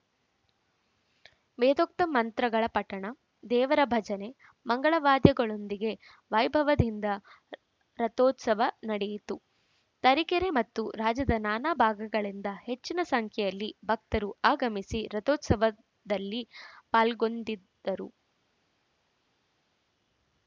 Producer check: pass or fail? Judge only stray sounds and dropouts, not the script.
pass